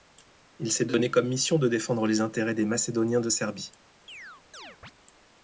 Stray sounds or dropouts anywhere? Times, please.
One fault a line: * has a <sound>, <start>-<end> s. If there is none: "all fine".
* has a chirp, 4.1-4.9 s